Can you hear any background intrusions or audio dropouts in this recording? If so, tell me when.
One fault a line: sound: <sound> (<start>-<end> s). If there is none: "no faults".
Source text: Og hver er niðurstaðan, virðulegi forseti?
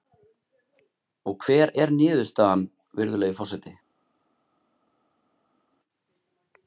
no faults